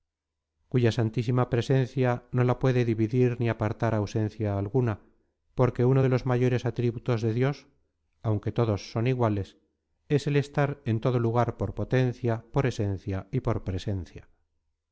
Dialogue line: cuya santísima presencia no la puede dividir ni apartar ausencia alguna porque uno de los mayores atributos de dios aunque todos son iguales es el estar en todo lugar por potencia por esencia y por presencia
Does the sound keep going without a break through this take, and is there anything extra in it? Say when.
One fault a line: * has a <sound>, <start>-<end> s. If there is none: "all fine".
all fine